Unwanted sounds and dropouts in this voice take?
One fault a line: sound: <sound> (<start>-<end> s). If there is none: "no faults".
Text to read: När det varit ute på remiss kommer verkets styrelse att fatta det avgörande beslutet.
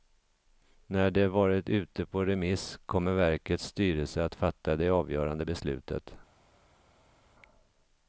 no faults